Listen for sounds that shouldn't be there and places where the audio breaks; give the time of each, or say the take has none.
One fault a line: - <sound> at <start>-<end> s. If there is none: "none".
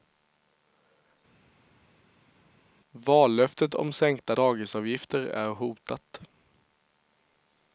none